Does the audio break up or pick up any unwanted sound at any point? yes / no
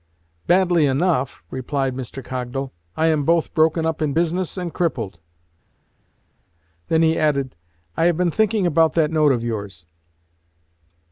no